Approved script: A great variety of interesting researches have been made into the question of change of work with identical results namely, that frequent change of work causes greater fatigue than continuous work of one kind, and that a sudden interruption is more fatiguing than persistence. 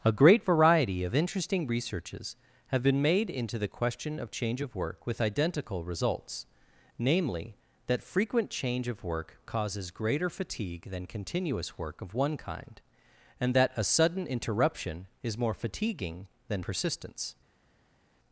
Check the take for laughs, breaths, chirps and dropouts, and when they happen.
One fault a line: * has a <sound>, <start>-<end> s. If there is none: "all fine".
all fine